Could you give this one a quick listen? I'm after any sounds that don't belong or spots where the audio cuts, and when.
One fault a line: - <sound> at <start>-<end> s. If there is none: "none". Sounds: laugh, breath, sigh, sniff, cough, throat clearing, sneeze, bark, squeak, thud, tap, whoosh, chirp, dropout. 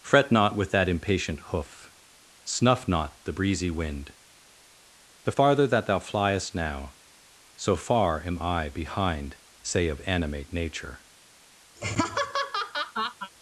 - laugh at 11.8-13.3 s